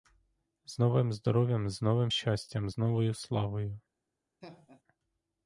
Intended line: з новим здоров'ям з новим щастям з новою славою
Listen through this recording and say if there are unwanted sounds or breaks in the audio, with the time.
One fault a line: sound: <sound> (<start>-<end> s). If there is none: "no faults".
sound: laugh (4.4-4.8 s)